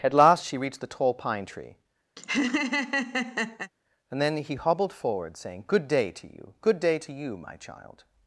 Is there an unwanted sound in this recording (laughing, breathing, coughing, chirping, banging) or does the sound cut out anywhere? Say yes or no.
yes